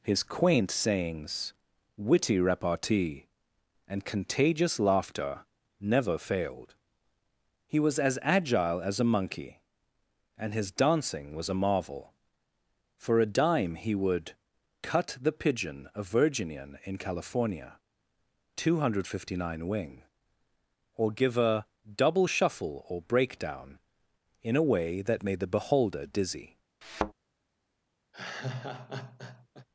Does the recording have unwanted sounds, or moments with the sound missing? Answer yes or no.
yes